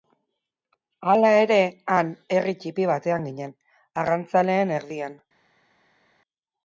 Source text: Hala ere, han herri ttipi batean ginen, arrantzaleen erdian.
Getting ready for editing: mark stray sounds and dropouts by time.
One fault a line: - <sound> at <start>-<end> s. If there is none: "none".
none